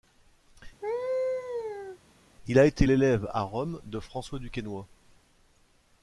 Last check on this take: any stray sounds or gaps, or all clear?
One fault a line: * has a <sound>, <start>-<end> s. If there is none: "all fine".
* has a laugh, 0.8-2.0 s